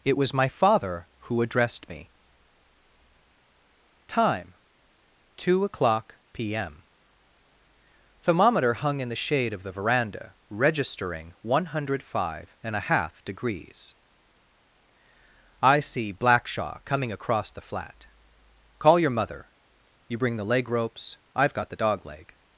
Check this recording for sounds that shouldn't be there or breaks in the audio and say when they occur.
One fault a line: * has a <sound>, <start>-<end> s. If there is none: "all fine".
all fine